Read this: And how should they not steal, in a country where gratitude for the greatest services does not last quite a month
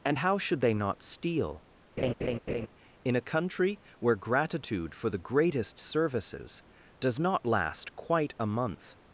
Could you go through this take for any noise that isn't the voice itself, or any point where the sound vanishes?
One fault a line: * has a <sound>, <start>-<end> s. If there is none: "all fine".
* has a laugh, 2.0-2.7 s